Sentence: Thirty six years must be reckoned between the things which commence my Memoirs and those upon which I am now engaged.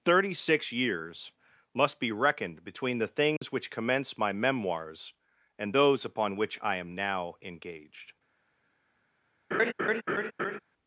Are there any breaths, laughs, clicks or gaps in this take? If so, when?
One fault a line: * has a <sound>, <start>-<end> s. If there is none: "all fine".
* has a dropout, 3.4-3.4 s
* has a laugh, 9.5-10.6 s